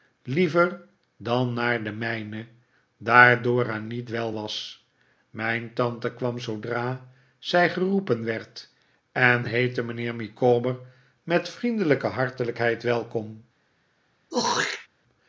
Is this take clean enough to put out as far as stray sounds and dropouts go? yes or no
no